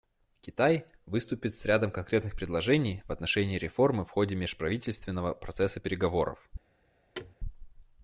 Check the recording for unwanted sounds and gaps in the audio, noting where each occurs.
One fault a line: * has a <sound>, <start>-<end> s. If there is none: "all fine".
* has a thud, 7.1-7.3 s